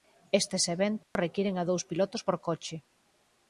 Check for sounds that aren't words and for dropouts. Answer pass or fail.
fail